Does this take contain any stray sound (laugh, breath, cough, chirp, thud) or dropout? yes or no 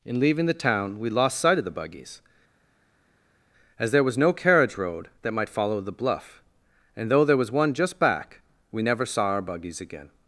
no